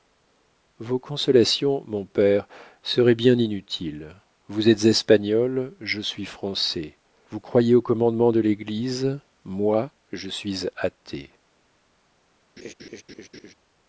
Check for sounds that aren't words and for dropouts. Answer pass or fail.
fail